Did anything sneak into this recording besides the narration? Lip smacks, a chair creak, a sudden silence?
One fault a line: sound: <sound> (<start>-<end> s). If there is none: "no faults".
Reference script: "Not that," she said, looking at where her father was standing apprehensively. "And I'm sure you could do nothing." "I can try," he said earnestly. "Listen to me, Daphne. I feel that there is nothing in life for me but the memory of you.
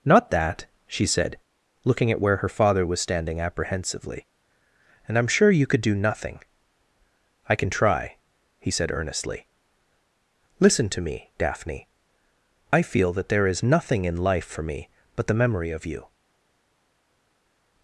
no faults